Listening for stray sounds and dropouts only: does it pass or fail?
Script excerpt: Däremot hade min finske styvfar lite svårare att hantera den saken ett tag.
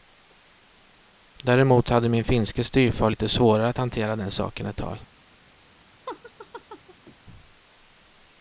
fail